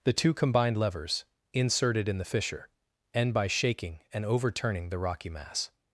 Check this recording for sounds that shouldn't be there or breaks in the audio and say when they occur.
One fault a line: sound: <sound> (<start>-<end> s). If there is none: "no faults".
no faults